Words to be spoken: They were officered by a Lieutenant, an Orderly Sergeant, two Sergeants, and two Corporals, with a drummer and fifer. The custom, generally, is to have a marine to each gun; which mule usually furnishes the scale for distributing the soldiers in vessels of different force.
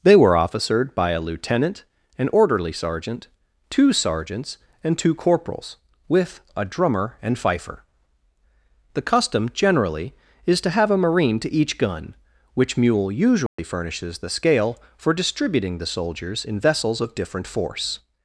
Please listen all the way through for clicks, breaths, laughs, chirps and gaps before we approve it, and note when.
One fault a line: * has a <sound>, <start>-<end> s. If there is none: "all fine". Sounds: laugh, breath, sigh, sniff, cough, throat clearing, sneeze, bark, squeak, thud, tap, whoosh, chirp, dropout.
* has a dropout, 13.5-13.6 s